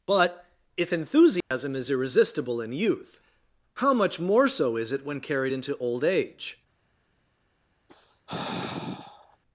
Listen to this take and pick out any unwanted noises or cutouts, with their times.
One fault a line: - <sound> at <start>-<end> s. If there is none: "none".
- dropout at 1.4-1.5 s
- sigh at 7.9-9.4 s